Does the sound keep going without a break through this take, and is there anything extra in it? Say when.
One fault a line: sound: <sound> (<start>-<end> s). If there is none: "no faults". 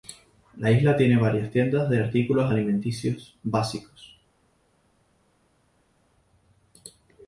no faults